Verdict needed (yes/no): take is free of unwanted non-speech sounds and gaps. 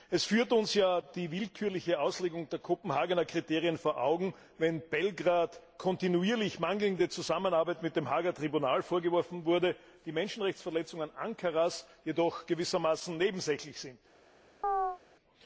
no